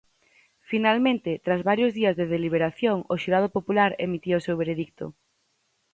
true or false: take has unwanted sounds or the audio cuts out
false